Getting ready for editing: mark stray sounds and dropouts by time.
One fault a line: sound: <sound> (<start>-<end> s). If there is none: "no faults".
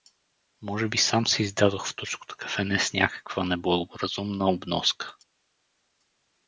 no faults